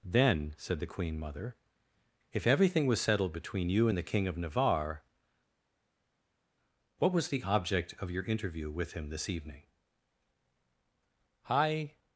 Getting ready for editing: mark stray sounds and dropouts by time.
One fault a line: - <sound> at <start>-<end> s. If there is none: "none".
none